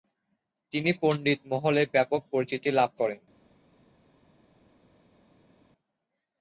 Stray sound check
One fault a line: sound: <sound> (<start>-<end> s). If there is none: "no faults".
no faults